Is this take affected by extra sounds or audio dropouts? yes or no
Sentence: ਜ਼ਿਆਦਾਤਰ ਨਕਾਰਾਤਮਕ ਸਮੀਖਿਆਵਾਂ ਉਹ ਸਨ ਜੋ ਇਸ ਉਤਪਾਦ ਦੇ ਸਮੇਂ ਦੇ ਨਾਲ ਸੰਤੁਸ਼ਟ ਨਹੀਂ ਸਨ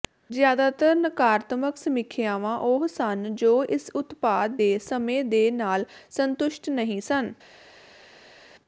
no